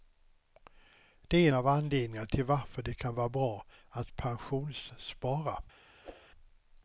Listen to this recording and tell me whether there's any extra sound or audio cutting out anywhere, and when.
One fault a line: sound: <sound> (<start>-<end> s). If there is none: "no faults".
sound: whoosh (6.0-6.3 s)